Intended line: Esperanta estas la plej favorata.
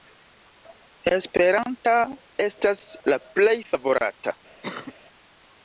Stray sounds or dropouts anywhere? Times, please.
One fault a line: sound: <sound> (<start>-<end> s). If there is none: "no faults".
sound: cough (4.6-4.9 s)